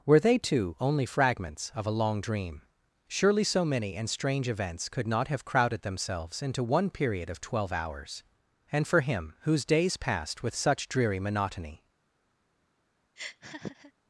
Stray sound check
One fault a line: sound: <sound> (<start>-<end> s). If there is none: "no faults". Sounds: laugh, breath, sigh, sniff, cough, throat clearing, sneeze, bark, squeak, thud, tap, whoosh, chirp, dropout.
sound: laugh (13.2-13.9 s)